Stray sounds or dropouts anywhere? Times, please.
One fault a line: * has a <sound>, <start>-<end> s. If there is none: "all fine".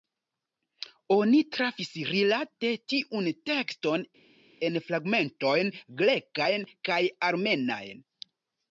all fine